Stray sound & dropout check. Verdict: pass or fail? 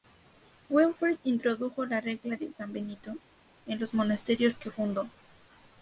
pass